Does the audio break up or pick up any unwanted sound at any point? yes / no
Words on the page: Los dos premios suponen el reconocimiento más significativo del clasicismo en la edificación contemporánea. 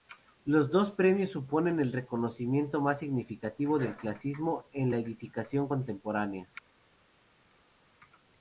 no